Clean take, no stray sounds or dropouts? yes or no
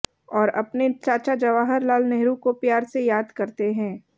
yes